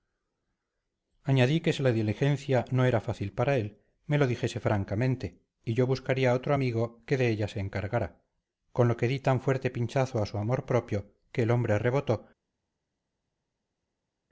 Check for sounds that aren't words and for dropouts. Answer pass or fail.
pass